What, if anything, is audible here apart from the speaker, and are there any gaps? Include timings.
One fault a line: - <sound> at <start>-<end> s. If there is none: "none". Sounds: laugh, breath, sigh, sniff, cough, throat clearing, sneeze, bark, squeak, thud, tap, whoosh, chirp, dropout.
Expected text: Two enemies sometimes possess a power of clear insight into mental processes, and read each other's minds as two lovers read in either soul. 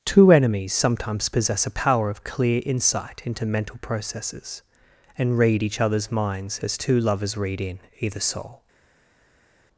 none